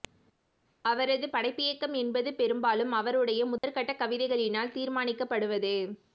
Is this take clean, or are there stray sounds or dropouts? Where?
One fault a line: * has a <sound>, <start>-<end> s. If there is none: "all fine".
* has a dropout, 3.6-3.6 s